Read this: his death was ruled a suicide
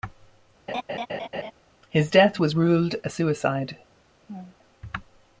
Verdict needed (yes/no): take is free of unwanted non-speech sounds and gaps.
no